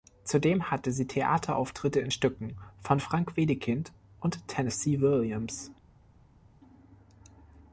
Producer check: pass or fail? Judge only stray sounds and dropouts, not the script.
pass